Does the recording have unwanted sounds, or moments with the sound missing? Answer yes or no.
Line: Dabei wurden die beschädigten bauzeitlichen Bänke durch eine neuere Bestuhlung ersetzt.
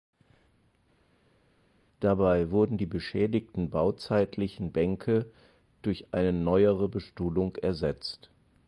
no